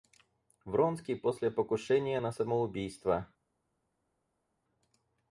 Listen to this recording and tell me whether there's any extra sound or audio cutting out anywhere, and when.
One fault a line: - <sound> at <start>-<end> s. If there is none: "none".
none